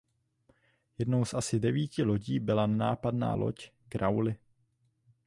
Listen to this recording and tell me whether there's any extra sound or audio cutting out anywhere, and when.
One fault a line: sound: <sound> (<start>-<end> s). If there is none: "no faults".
no faults